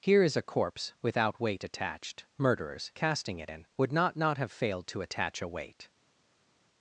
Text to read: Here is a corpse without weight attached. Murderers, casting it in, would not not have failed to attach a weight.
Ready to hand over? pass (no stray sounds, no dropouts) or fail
pass